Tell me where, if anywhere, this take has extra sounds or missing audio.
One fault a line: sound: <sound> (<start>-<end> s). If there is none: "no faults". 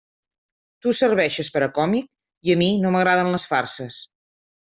no faults